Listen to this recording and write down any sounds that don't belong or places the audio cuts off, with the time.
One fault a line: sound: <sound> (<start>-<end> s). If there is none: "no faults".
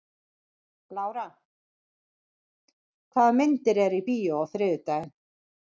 no faults